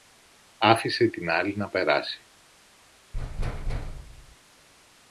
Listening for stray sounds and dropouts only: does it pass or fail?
fail